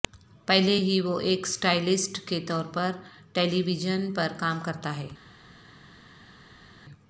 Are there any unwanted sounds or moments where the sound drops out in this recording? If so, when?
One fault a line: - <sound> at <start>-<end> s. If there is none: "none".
none